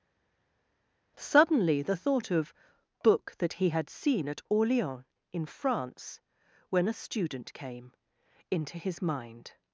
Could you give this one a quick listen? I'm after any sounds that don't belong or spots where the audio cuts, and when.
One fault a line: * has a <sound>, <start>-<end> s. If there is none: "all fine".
all fine